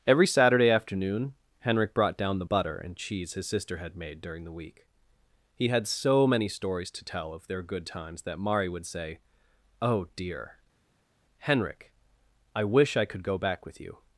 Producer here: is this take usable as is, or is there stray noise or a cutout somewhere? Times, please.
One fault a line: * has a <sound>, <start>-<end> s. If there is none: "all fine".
all fine